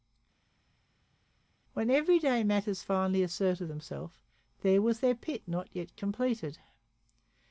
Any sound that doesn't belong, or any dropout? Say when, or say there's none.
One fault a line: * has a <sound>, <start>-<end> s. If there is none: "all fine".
all fine